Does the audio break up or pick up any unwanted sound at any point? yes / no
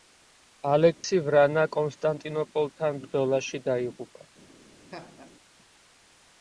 yes